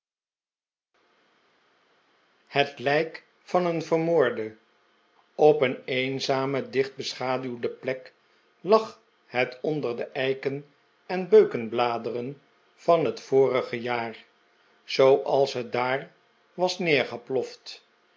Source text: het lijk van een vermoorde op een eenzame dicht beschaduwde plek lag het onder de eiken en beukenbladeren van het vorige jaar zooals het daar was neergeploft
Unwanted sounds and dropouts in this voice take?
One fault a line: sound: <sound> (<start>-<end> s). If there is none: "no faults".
no faults